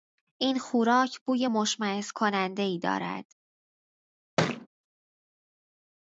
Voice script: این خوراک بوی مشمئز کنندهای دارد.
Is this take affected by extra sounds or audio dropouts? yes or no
yes